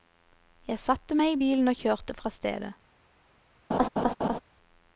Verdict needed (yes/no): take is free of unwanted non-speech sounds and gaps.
no